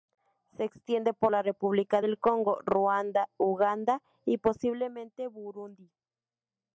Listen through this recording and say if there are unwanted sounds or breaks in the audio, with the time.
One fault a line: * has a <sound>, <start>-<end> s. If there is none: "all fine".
all fine